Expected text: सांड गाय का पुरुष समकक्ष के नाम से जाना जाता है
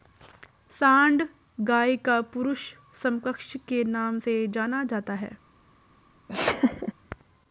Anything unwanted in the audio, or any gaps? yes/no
yes